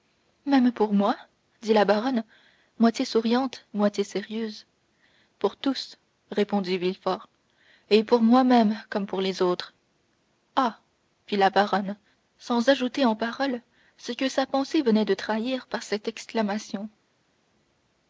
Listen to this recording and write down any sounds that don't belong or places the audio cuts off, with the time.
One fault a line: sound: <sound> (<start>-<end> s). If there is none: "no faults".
no faults